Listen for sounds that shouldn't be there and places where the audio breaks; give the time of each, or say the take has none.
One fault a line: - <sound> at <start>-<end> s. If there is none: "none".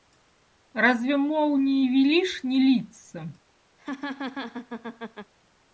- laugh at 3.8-5.3 s